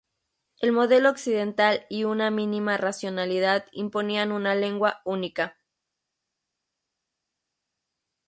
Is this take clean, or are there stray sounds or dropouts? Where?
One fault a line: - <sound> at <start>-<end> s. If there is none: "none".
none